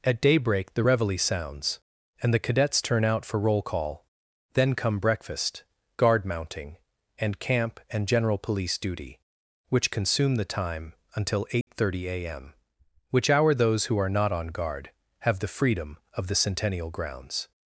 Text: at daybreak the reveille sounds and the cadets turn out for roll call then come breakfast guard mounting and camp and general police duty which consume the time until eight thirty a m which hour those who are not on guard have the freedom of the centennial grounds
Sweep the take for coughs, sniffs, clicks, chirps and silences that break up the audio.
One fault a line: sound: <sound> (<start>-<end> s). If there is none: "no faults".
sound: dropout (11.6-11.7 s)